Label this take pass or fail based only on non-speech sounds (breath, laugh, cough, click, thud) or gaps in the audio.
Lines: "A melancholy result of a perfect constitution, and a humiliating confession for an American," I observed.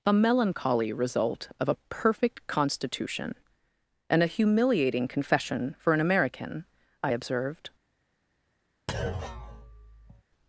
fail